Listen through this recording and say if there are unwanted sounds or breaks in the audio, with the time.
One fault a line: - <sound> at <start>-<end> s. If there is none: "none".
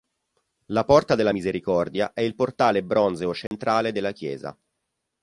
- dropout at 3.5-3.5 s